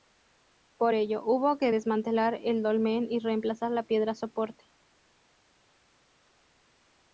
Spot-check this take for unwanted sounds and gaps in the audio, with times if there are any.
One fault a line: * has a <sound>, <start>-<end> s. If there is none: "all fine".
all fine